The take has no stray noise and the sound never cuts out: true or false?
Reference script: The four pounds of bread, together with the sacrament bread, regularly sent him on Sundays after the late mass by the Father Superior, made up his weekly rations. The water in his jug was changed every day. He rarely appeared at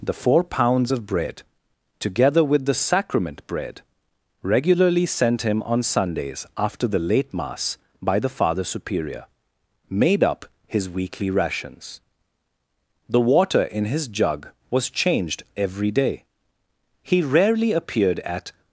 true